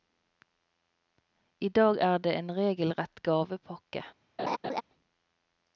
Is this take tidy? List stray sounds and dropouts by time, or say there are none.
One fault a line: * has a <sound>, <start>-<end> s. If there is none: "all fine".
* has a laugh, 4.4-4.8 s